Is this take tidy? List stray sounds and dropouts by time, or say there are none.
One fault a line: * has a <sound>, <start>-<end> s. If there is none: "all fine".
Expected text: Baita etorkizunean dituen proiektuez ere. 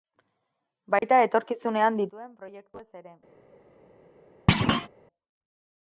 * has a dropout, 1.0-1.0 s
* has a thud, 4.5-4.9 s